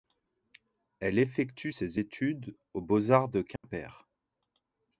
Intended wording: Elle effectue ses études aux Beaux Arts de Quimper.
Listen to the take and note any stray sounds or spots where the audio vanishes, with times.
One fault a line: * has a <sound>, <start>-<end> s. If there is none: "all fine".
* has a dropout, 3.6-3.6 s